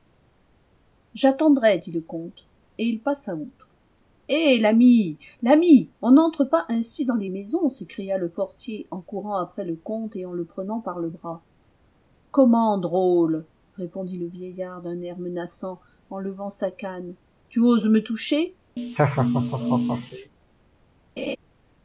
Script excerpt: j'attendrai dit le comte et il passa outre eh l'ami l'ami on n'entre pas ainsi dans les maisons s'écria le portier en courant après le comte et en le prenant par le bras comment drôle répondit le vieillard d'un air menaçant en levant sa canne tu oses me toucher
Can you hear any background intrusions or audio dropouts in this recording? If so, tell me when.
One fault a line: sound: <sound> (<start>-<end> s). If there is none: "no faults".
sound: laugh (18.8-20.3 s)
sound: laugh (21.2-21.4 s)